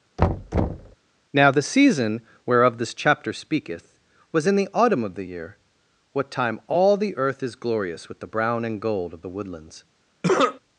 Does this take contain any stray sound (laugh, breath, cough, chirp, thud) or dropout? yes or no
yes